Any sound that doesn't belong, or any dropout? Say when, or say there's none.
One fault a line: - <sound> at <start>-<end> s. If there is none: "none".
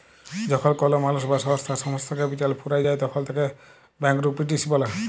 none